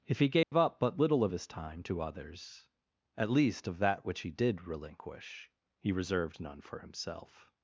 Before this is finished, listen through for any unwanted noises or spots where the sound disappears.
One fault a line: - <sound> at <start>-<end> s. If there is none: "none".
- dropout at 0.4-0.5 s